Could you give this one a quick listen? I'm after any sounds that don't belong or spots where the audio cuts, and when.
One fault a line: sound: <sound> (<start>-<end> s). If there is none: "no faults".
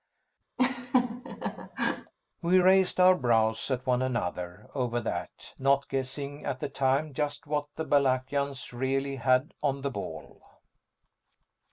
sound: laugh (0.6-2.1 s)